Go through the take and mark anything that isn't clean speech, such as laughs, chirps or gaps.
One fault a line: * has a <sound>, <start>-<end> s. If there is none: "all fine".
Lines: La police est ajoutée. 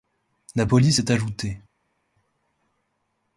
all fine